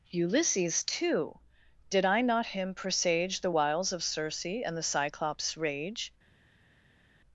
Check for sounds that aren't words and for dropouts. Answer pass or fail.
pass